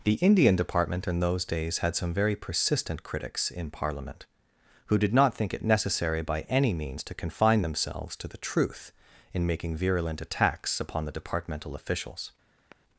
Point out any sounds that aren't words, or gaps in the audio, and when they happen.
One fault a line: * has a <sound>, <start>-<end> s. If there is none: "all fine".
* has a sigh, 12.6-12.8 s